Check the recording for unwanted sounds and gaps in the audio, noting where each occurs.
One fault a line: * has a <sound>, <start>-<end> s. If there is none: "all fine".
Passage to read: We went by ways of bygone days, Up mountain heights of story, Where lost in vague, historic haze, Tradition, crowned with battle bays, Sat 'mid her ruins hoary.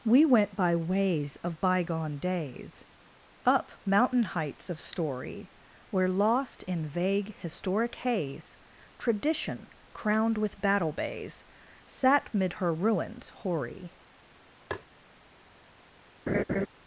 * has a tap, 14.7-14.9 s
* has a laugh, 16.3-16.7 s